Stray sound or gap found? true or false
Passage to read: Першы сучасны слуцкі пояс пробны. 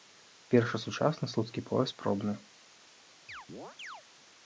true